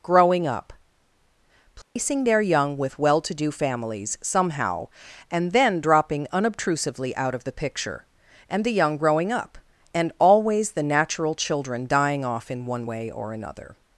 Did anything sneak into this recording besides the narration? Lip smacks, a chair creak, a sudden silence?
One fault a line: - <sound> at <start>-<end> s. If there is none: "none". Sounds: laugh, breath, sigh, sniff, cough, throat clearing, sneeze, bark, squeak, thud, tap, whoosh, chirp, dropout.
- dropout at 1.8-2.0 s